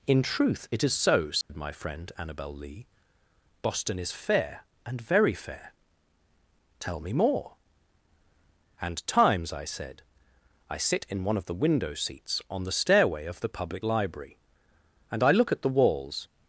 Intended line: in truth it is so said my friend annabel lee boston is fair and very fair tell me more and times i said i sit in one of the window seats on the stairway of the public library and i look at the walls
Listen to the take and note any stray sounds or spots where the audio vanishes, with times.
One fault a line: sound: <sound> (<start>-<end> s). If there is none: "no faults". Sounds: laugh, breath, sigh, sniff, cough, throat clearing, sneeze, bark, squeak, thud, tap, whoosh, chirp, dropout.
sound: dropout (1.4-1.5 s)